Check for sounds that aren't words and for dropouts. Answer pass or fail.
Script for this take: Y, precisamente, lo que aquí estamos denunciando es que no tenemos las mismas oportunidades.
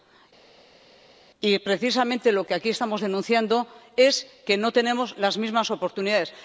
pass